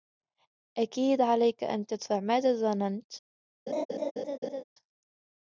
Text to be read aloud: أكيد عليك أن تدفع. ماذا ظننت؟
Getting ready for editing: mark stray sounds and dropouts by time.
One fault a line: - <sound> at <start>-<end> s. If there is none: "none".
- laugh at 3.7-4.6 s